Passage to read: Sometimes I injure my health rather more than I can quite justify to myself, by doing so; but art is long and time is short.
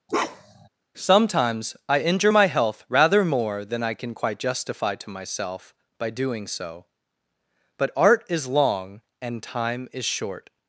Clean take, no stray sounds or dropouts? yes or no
no